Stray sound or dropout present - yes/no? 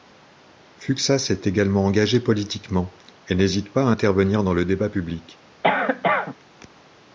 yes